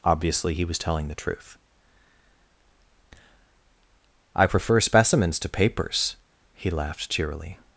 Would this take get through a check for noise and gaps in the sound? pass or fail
pass